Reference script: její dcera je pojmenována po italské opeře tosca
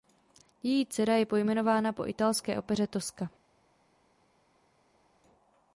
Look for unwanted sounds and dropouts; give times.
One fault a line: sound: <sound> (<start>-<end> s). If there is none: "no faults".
no faults